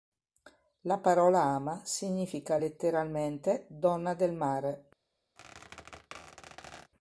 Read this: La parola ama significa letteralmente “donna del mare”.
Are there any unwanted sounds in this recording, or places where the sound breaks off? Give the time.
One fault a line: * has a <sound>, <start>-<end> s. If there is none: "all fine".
* has a squeak, 5.4-6.9 s